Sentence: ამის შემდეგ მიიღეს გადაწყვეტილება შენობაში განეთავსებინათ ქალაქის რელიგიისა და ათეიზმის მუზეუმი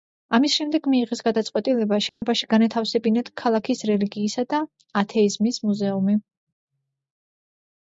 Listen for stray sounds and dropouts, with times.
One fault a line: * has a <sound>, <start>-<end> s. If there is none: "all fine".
* has a dropout, 2.1-2.2 s